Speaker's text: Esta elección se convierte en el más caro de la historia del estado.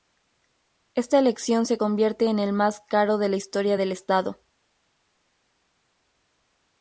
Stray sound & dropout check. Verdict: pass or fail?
pass